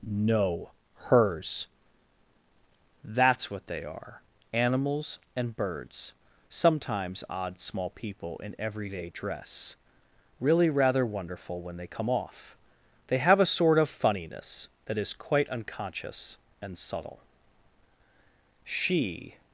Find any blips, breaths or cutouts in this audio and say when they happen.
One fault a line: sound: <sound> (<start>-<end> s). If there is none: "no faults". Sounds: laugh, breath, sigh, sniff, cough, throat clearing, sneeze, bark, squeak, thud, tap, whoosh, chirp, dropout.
no faults